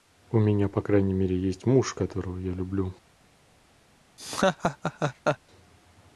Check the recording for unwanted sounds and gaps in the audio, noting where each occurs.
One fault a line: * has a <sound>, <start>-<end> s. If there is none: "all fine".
* has a laugh, 4.2-5.4 s